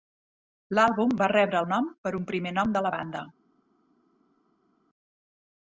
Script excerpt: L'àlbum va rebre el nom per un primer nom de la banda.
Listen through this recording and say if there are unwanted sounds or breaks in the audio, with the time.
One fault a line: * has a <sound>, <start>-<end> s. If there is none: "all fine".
all fine